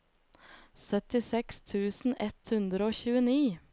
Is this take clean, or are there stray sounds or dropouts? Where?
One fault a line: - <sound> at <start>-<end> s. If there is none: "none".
none